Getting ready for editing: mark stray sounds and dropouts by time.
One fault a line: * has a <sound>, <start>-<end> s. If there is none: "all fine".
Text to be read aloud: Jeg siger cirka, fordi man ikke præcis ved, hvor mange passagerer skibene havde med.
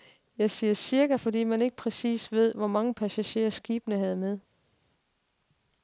all fine